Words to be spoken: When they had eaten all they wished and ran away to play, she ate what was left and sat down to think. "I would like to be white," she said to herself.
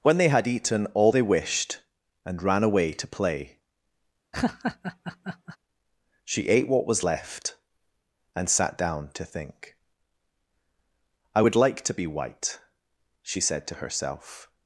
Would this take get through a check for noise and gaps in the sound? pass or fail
fail